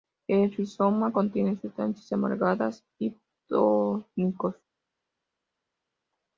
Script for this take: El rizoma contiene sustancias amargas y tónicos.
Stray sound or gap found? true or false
false